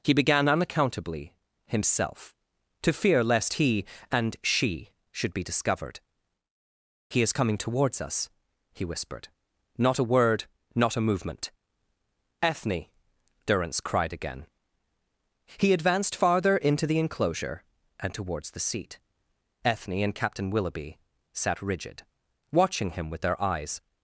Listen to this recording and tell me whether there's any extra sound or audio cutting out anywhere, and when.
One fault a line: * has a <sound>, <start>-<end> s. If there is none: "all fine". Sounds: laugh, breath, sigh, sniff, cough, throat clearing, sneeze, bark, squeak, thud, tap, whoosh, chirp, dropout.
all fine